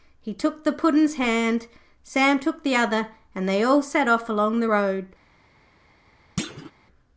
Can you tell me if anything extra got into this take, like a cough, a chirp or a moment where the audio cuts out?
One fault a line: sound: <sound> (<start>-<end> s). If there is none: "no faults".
sound: thud (6.4-6.7 s)